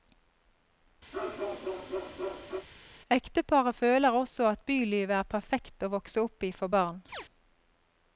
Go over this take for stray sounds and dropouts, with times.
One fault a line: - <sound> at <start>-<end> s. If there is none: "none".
- bark at 1.1-2.7 s
- chirp at 7.1-7.2 s